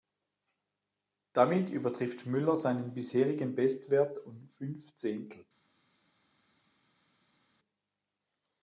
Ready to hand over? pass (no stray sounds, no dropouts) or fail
pass